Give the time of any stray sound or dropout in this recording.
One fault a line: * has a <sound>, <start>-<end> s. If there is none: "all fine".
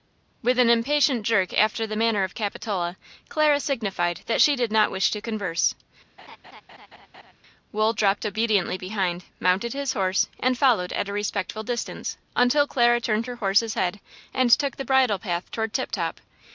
* has a laugh, 6.2-7.3 s